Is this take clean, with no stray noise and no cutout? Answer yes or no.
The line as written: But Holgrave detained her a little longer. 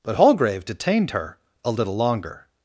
yes